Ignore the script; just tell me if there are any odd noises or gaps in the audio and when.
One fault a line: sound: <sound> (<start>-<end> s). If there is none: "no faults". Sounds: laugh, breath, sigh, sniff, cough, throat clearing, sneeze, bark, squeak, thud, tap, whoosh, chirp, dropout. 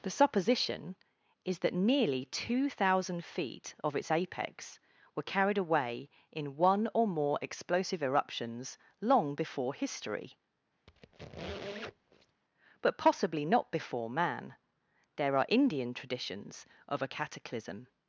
sound: squeak (10.9-12.4 s)